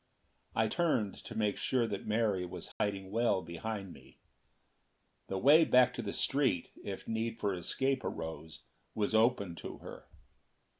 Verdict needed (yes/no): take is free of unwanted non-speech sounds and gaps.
no